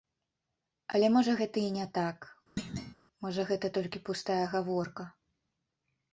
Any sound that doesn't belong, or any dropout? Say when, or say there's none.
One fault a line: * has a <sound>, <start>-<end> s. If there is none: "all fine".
* has a thud, 2.6-2.9 s